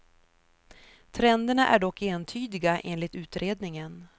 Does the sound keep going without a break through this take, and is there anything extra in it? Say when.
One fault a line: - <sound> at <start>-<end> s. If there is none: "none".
none